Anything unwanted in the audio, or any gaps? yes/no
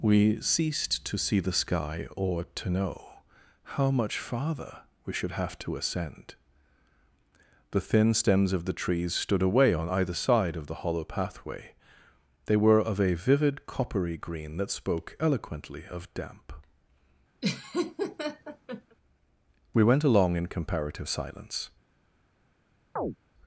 yes